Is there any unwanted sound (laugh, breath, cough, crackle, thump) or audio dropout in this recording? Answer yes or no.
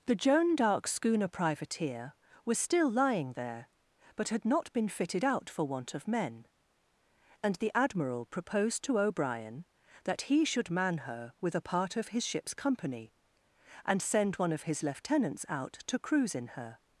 no